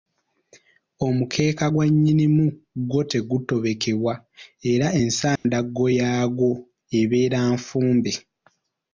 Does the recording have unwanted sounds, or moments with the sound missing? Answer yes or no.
yes